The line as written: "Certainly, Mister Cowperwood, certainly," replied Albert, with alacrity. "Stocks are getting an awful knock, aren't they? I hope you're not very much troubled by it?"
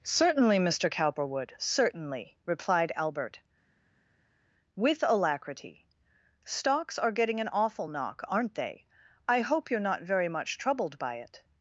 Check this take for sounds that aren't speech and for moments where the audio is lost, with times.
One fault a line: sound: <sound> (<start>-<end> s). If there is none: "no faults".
no faults